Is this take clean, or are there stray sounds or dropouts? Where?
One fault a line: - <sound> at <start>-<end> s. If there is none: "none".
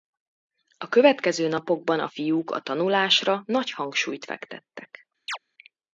- chirp at 5.3-5.4 s